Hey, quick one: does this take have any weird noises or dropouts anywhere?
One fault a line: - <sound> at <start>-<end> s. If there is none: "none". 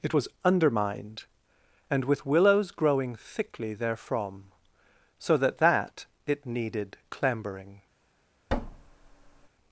- thud at 8.5-9.5 s